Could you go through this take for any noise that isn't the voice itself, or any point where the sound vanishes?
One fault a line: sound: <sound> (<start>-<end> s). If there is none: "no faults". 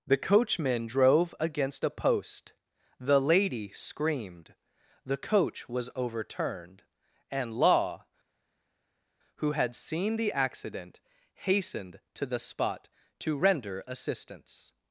no faults